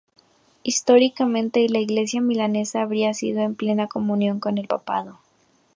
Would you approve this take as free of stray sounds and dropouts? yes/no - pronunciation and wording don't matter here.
yes